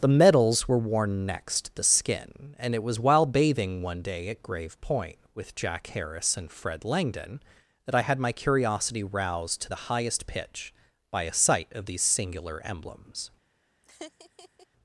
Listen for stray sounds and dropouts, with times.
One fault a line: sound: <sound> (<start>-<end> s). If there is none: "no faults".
sound: laugh (13.8-14.7 s)